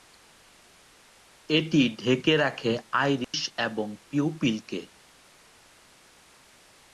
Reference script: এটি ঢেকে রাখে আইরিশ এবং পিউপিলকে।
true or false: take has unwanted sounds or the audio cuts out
true